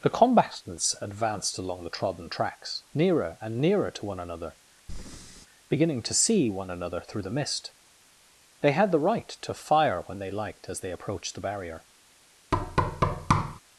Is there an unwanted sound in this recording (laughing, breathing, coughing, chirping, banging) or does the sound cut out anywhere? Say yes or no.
yes